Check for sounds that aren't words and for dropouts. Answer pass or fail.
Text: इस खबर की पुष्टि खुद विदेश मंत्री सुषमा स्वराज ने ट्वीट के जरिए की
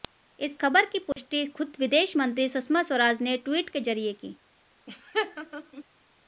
fail